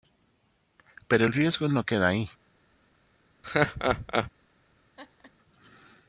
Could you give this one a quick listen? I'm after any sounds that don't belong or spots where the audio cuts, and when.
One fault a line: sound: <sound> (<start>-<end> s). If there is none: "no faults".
sound: laugh (3.4-4.3 s)
sound: laugh (5.0-5.3 s)